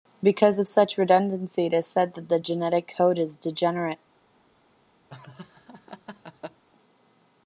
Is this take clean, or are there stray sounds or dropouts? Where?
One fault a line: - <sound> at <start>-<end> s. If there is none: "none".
- laugh at 5.1-6.6 s